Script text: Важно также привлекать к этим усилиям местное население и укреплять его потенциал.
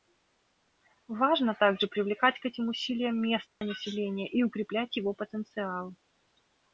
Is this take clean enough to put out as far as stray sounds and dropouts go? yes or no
no